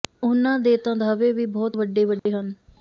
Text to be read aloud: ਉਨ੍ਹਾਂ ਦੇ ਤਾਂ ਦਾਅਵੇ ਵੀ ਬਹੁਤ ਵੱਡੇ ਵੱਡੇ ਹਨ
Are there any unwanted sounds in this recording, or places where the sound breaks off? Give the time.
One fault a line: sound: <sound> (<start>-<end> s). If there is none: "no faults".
sound: dropout (2.2-2.3 s)